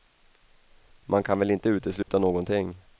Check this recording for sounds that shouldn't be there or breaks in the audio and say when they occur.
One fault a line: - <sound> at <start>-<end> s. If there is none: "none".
- dropout at 2.0-2.1 s